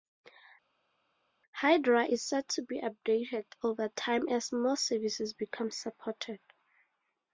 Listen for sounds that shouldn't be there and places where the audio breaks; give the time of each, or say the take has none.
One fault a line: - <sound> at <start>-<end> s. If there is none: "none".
none